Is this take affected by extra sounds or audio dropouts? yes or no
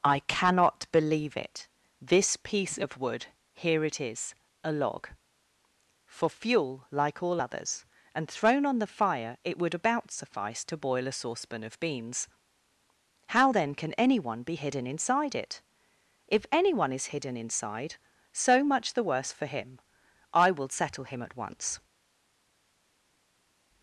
no